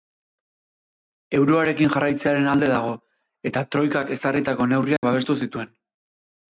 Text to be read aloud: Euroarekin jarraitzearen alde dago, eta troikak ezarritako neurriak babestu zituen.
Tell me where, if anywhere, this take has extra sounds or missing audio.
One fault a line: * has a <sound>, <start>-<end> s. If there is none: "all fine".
* has a dropout, 5.0-5.0 s